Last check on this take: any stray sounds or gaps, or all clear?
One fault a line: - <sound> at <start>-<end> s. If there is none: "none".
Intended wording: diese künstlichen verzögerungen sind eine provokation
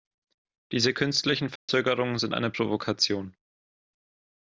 - dropout at 1.6-1.7 s